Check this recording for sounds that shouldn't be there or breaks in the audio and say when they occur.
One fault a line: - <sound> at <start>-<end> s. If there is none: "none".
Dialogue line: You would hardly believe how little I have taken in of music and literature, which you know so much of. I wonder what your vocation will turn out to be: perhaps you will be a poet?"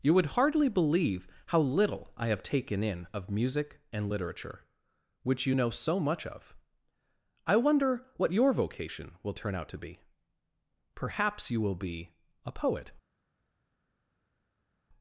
none